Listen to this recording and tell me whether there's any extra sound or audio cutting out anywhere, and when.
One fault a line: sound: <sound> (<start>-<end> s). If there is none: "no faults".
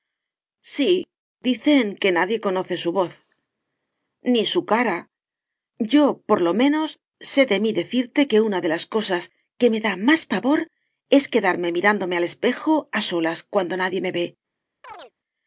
sound: chirp (14.8-15.1 s)